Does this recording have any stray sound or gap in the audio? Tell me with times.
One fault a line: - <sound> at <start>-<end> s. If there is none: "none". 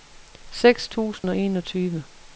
- dropout at 1.2-1.2 s